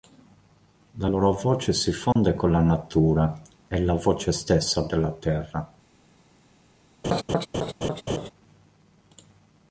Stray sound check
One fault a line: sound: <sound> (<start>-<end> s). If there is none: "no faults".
sound: dropout (2.1-2.2 s)
sound: laugh (7.0-8.3 s)